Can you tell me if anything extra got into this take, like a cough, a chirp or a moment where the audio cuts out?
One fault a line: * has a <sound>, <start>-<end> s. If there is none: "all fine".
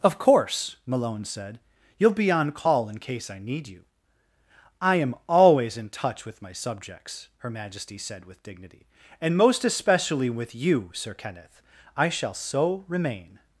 all fine